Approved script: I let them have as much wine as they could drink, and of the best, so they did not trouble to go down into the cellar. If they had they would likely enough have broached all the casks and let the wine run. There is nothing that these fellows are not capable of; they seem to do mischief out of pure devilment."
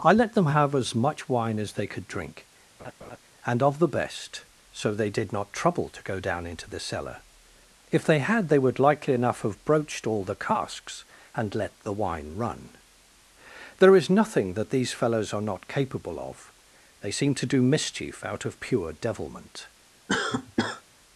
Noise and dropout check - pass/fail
fail